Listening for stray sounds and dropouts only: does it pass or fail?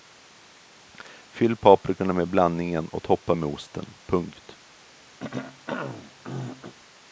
fail